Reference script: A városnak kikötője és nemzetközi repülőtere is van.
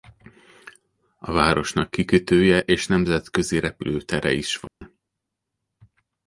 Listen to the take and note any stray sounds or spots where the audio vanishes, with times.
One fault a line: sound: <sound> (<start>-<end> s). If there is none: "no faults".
sound: dropout (4.7-4.8 s)